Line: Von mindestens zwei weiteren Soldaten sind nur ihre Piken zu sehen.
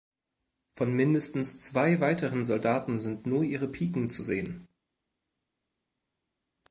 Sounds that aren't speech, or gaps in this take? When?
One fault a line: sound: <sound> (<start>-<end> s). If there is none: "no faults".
no faults